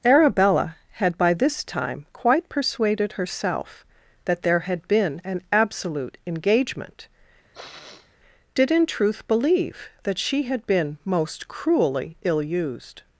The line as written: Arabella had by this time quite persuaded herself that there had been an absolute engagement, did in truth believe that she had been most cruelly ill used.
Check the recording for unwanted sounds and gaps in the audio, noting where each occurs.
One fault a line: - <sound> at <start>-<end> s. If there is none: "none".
- sniff at 7.5-8.2 s